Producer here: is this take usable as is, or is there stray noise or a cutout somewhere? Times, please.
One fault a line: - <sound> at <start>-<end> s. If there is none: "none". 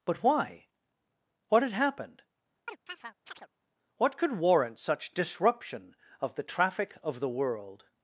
- chirp at 2.7-3.5 s